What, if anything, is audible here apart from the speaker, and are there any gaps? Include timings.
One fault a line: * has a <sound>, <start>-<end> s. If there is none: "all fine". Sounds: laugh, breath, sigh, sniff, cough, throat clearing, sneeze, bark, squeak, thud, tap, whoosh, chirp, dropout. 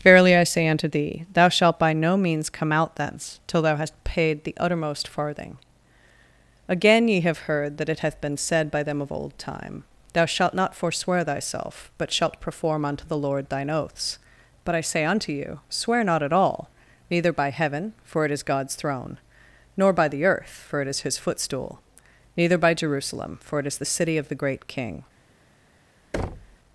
* has a thud, 26.1-26.6 s